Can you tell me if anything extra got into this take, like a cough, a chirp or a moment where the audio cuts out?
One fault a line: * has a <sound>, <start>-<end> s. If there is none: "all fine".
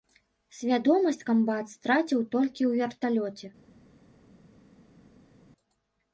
all fine